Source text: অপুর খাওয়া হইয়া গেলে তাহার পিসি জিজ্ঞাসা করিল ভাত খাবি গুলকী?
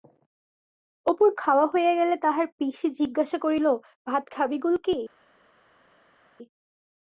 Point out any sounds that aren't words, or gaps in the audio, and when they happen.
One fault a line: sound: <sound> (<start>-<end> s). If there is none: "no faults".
no faults